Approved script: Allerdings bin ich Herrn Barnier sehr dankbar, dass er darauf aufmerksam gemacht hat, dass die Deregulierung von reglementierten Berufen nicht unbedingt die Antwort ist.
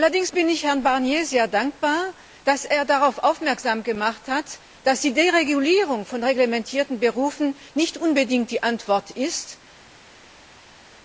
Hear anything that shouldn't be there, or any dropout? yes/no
no